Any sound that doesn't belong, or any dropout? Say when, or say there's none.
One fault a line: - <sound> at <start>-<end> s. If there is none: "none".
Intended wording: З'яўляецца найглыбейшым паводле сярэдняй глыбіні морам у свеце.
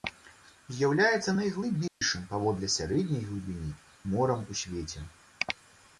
- dropout at 1.9-2.0 s